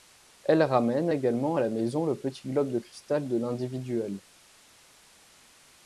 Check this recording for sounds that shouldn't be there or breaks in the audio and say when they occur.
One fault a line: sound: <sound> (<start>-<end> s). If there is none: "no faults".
no faults